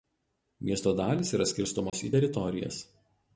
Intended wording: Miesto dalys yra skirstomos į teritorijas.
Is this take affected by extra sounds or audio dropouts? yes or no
yes